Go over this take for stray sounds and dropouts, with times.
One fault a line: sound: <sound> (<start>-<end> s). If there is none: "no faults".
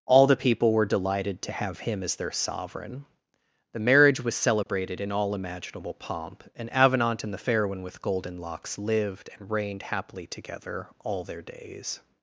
sound: dropout (4.6-4.7 s)